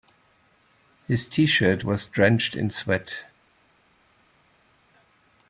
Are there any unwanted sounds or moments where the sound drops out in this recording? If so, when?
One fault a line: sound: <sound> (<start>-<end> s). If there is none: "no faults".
no faults